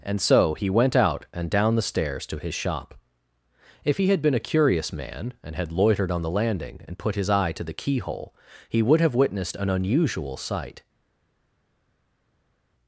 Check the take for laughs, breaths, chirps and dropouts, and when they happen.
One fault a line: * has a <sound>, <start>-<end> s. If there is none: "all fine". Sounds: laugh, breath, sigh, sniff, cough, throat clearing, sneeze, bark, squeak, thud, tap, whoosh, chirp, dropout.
all fine